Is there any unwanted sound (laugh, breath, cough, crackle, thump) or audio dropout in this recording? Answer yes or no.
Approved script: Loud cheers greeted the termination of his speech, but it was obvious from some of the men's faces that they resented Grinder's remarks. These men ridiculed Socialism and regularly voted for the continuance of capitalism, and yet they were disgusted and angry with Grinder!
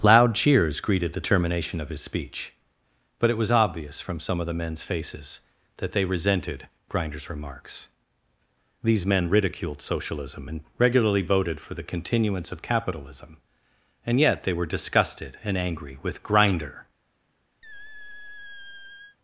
yes